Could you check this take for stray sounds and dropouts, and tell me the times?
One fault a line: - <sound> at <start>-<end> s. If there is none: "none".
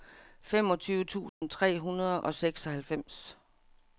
- dropout at 1.3-1.4 s